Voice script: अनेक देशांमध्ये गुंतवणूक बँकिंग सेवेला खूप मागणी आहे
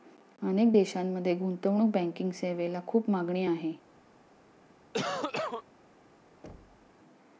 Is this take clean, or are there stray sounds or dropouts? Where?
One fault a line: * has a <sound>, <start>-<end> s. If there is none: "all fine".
* has a cough, 4.9-5.6 s
* has a thud, 6.4-6.9 s